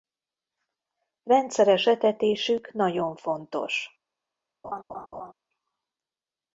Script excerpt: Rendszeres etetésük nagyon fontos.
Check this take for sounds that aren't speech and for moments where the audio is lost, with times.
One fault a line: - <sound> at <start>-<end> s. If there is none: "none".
- laugh at 4.6-5.3 s